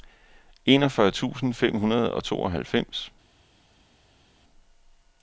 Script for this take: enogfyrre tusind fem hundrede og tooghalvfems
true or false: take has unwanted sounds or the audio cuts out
false